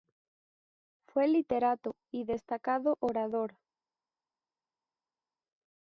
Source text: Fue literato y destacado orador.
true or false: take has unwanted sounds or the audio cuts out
false